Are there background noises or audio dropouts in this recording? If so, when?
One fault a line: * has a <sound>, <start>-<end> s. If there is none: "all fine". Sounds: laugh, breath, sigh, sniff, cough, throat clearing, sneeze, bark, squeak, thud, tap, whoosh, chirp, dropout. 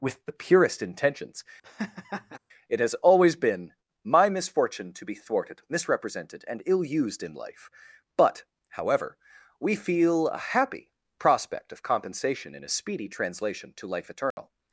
* has a laugh, 1.6-2.4 s
* has a dropout, 14.3-14.4 s